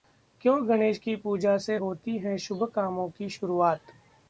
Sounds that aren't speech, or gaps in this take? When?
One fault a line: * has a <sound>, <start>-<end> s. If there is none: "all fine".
all fine